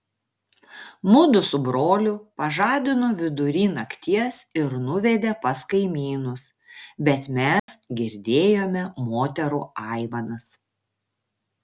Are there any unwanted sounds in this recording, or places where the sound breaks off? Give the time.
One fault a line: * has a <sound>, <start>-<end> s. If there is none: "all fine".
* has a dropout, 7.6-7.7 s